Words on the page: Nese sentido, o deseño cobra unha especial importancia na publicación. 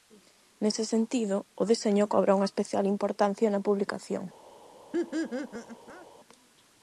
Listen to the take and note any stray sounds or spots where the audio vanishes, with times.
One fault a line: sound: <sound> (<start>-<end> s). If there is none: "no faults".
sound: laugh (4.9-6.1 s)